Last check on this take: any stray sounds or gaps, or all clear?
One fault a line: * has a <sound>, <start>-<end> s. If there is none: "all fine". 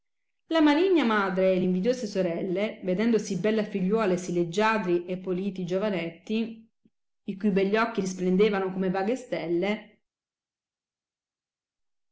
all fine